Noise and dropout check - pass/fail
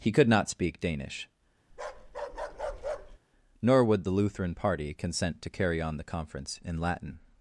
fail